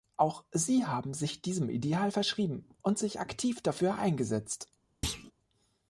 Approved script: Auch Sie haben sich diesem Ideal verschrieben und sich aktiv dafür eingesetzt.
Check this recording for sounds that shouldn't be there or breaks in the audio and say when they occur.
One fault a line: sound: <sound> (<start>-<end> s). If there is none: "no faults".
sound: thud (5.0-5.3 s)